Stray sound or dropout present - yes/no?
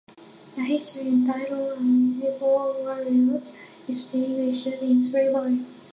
no